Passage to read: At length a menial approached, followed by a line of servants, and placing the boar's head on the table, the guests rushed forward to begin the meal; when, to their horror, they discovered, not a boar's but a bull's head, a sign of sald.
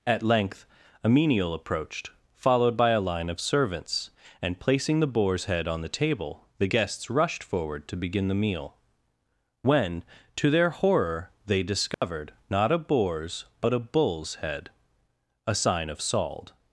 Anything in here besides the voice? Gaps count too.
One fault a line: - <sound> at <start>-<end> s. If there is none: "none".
- dropout at 11.9-12.0 s